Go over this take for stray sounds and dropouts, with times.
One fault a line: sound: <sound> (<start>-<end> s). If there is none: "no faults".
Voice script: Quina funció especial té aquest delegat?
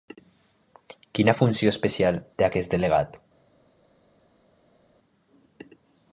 no faults